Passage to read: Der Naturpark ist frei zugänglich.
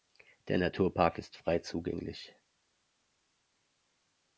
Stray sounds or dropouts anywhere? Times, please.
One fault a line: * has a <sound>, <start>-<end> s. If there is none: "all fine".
all fine